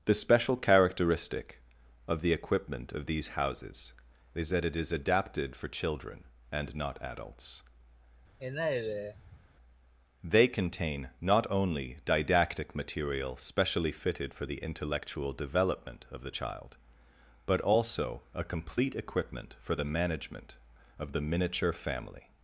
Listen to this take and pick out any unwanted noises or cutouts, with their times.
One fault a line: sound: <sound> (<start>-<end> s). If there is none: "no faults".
sound: sigh (8.4-9.4 s)